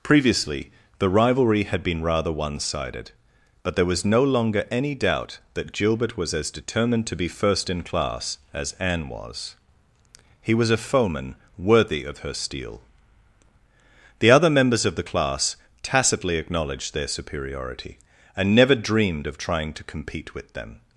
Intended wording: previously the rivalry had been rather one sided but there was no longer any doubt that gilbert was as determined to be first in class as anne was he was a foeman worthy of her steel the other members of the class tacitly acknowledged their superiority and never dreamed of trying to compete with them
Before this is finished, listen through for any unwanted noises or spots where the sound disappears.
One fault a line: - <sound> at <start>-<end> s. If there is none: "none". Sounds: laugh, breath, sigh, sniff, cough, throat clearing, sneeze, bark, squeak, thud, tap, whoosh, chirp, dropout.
none